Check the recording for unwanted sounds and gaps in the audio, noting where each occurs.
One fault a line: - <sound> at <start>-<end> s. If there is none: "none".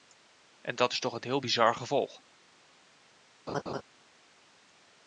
- laugh at 3.5-3.8 s